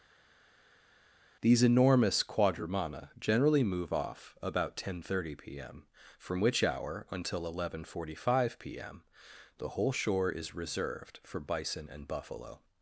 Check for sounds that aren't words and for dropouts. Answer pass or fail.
pass